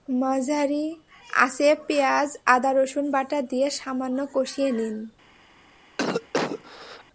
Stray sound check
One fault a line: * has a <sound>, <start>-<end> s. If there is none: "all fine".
* has a cough, 6.0-7.0 s